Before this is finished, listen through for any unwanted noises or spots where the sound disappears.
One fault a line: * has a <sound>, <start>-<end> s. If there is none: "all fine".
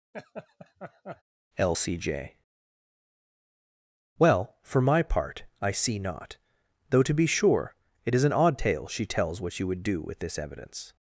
* has a laugh, 0.1-1.2 s